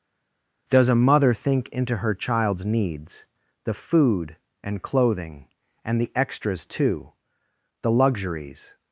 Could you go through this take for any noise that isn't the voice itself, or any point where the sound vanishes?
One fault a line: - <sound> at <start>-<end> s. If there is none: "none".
none